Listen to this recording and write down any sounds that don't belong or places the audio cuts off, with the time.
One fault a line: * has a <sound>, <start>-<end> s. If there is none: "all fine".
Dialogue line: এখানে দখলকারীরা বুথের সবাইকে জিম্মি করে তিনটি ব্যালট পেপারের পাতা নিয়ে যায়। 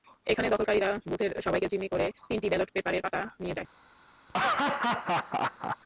* has a laugh, 4.3-5.8 s